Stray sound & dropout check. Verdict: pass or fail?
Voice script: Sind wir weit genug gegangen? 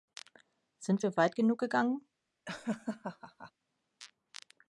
fail